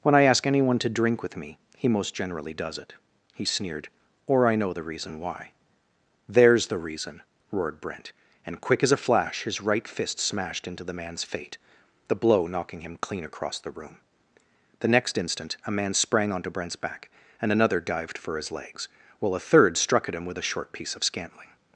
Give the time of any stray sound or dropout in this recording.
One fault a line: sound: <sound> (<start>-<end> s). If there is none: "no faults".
no faults